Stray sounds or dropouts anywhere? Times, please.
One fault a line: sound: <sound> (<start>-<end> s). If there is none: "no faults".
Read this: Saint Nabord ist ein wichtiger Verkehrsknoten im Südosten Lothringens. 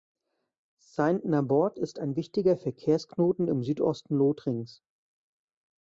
no faults